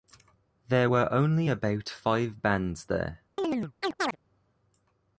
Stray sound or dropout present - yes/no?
yes